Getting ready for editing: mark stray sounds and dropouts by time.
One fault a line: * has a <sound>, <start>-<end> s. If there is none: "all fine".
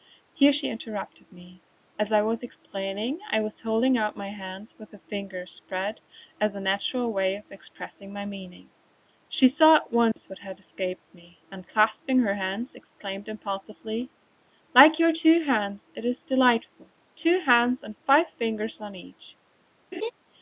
* has a dropout, 10.1-10.2 s
* has a laugh, 19.9-20.1 s